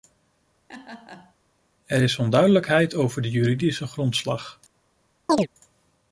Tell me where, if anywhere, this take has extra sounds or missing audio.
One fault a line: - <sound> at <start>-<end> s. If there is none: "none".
- laugh at 0.7-1.3 s
- chirp at 5.3-5.5 s